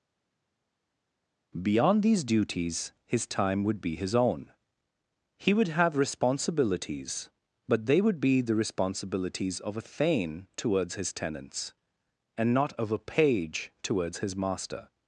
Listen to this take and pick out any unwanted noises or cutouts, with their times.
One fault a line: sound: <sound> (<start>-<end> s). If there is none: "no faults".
no faults